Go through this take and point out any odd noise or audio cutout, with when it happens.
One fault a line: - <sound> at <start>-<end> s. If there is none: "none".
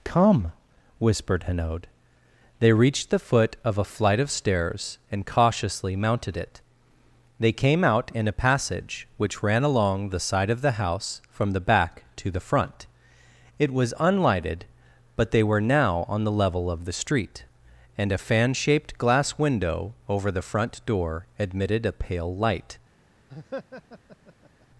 - laugh at 23.3-24.7 s